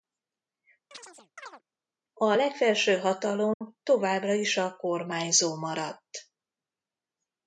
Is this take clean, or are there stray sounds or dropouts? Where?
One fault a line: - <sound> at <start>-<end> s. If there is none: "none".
- chirp at 0.9-1.6 s
- dropout at 3.5-3.6 s